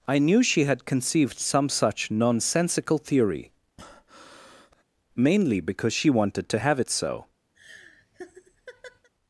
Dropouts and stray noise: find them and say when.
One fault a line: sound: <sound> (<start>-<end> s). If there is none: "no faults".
sound: breath (3.8-4.8 s)
sound: laugh (7.5-9.1 s)